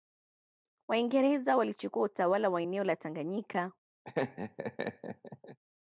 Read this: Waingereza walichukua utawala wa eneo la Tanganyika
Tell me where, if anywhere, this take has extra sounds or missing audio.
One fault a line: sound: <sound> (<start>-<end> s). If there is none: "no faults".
sound: laugh (4.0-5.6 s)